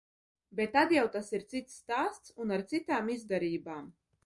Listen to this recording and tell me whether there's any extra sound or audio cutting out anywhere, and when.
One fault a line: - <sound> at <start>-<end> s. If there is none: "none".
none